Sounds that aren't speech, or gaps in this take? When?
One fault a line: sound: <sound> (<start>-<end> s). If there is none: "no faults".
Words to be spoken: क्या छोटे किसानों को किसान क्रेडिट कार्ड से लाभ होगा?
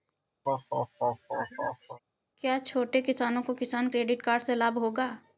sound: laugh (0.4-2.0 s)